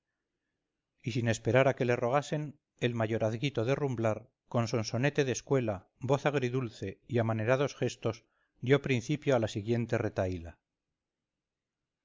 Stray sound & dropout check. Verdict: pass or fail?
pass